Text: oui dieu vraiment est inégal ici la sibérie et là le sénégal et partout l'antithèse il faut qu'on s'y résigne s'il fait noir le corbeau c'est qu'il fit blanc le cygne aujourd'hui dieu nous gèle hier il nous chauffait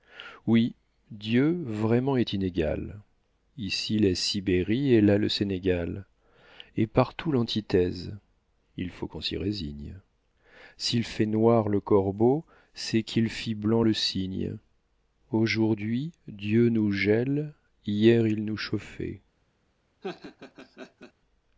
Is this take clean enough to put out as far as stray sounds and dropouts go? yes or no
no